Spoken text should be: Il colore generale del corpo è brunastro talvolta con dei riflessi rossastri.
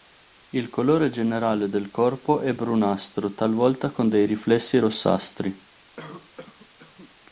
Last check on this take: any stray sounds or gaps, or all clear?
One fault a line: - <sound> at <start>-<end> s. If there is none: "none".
- cough at 6.0-7.2 s